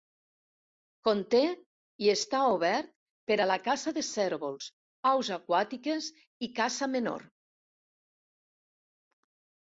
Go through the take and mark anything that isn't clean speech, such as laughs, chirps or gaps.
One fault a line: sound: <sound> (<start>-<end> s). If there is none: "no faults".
no faults